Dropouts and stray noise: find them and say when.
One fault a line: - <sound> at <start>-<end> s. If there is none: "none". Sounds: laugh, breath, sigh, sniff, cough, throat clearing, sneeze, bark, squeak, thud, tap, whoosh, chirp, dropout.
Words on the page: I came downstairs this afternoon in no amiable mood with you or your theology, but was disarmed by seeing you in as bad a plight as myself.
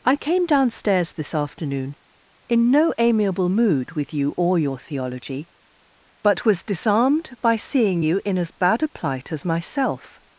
none